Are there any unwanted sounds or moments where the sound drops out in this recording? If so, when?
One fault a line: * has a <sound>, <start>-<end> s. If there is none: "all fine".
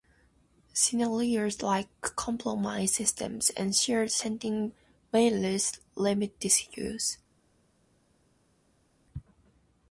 all fine